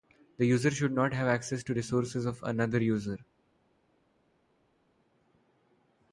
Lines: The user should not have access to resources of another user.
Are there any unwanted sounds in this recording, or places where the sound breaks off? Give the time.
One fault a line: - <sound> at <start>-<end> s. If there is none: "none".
none